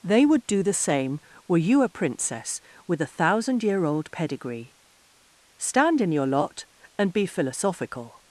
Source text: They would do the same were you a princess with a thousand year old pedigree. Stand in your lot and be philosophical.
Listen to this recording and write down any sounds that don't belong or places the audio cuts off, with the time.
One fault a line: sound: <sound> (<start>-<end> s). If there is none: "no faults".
no faults